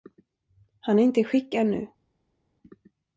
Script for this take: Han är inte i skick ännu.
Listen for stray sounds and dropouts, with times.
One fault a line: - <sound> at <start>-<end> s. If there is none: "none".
none